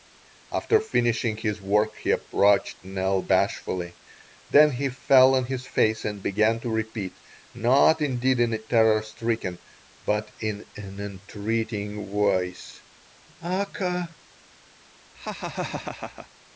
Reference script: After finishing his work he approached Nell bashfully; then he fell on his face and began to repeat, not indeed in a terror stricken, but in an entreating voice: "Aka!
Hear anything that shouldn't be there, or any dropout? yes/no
yes